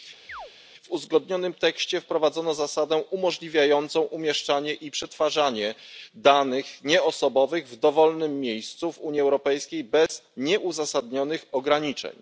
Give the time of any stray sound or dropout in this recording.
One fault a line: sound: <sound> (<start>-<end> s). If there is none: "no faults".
sound: chirp (0.3-0.5 s)
sound: dropout (10.1-10.1 s)